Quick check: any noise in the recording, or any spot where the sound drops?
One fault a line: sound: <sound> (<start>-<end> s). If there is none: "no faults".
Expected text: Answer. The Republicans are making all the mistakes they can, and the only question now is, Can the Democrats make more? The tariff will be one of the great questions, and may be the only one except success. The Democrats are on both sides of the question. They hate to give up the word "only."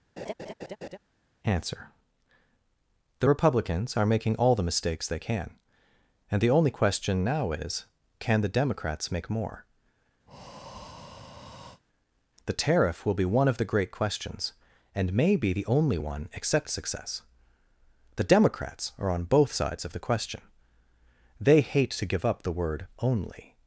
sound: laugh (0.2-1.0 s)
sound: breath (10.3-11.8 s)